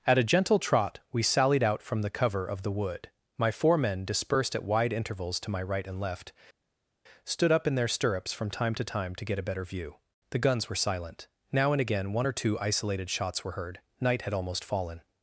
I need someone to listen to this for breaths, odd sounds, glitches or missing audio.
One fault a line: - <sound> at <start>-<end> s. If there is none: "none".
none